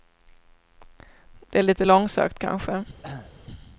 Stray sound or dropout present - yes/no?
yes